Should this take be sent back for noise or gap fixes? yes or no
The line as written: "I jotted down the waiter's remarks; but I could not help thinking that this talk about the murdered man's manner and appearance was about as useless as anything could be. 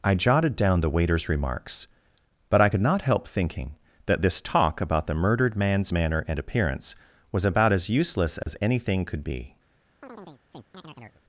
yes